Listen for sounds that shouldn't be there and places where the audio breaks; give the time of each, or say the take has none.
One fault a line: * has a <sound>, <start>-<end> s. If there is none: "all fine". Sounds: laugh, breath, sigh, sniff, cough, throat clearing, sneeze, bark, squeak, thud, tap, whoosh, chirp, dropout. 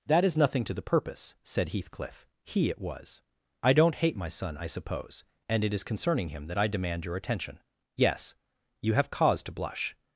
all fine